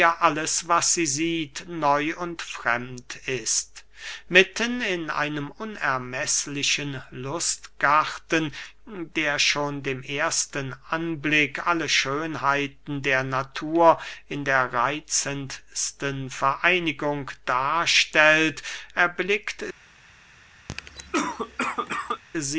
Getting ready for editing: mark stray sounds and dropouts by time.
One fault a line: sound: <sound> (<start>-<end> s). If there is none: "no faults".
sound: cough (20.7-22.2 s)